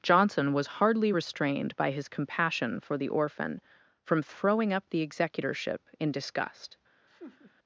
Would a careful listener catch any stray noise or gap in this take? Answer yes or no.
yes